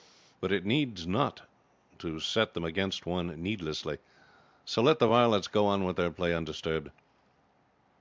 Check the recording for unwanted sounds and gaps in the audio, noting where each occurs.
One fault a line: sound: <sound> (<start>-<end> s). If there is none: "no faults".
no faults